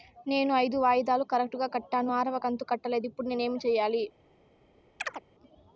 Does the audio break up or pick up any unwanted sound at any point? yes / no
yes